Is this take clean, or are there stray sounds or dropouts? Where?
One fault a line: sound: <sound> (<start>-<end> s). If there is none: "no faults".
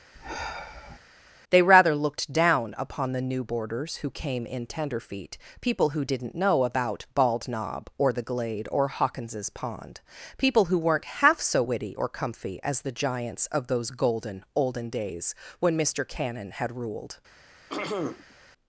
sound: sigh (0.1-1.0 s)
sound: throat clearing (17.7-18.3 s)